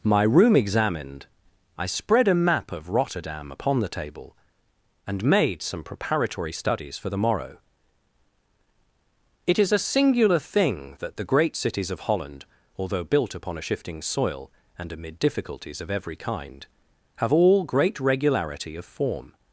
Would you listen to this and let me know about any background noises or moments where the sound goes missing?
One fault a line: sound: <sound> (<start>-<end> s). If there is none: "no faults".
no faults